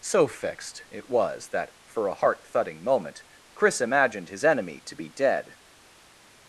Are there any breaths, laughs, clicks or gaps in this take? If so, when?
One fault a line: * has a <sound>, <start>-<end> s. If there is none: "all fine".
all fine